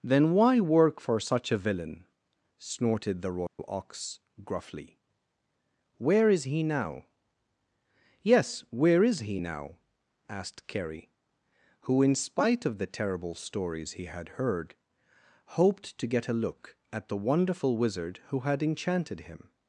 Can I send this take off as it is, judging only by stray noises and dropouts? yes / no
no